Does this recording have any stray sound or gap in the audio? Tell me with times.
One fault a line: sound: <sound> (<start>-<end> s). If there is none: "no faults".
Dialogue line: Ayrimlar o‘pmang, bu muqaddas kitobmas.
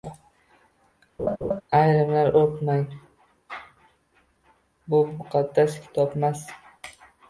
sound: laugh (1.2-1.6 s)